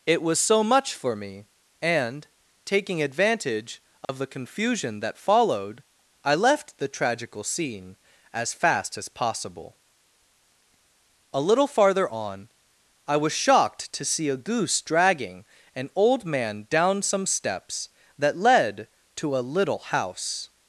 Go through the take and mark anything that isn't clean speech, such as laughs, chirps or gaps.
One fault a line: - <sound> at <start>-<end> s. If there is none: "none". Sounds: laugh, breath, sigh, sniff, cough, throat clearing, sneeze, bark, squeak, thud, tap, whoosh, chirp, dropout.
- dropout at 4.0-4.1 s